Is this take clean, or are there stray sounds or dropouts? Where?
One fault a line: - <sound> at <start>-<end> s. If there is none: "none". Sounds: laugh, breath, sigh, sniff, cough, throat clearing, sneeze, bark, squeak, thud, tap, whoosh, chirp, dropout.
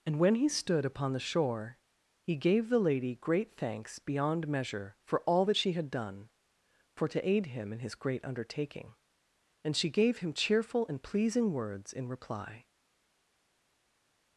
none